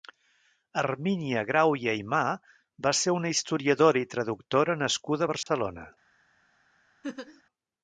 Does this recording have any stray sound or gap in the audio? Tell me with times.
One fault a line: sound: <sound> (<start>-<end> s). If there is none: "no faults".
sound: dropout (5.4-5.5 s)
sound: laugh (7.0-7.4 s)